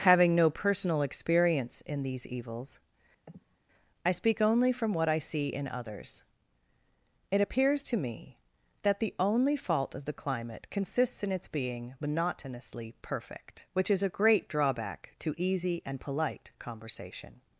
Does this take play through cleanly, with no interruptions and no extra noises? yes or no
no